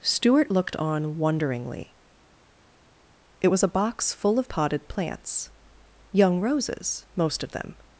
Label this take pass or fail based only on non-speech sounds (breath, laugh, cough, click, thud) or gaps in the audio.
pass